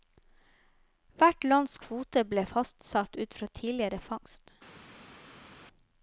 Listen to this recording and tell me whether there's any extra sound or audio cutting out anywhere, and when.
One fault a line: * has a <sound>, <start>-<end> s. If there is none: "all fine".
all fine